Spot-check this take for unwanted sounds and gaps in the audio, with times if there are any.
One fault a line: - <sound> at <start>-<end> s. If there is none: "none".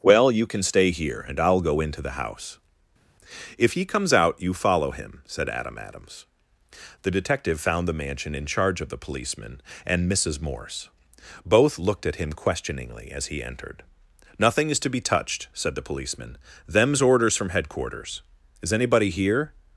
none